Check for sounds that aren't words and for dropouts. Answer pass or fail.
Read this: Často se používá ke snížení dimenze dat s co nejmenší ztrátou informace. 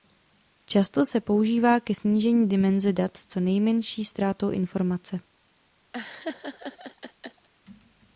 fail